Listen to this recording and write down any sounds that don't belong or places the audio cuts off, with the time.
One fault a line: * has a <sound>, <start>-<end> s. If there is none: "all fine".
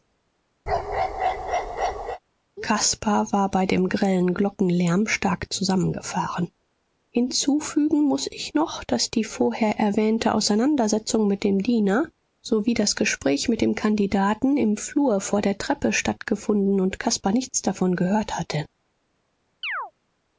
* has a bark, 0.7-2.2 s
* has a chirp, 19.6-19.9 s